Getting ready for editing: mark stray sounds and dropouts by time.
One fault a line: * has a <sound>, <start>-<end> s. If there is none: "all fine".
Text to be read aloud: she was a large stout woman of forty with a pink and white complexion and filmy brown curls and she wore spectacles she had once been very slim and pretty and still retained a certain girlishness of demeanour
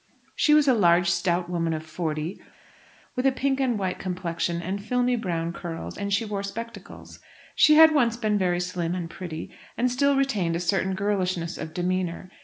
all fine